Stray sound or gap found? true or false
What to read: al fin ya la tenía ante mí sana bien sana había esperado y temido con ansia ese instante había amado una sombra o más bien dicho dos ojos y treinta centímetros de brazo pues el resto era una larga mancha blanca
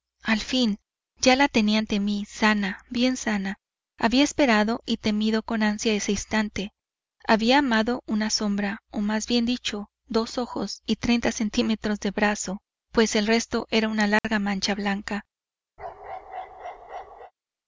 true